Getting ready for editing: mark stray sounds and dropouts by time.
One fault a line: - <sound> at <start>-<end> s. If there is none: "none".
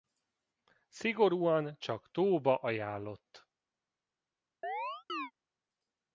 - chirp at 4.6-5.3 s